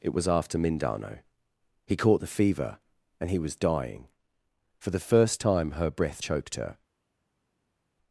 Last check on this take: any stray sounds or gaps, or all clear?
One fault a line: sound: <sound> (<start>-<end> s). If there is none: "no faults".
no faults